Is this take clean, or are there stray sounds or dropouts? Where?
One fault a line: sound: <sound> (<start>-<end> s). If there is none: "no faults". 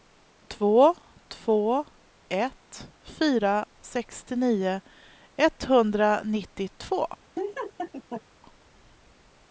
sound: laugh (7.4-8.2 s)